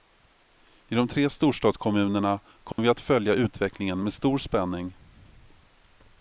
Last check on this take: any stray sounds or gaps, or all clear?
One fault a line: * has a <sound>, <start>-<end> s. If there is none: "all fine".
* has a dropout, 2.7-2.8 s